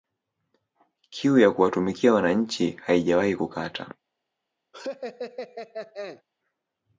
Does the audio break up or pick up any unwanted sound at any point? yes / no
yes